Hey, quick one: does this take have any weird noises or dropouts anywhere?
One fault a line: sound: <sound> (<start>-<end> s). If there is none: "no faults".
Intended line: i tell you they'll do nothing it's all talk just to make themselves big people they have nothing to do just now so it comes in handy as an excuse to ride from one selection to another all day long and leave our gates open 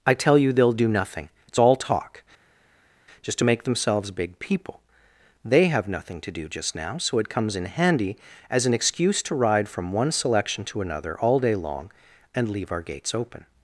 no faults